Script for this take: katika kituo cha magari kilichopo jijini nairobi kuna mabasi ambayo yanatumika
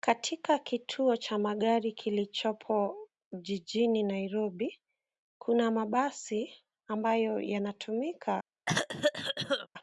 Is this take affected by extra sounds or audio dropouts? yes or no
yes